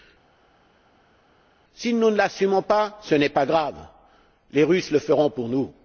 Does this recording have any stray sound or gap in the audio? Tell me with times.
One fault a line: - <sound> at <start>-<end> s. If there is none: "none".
none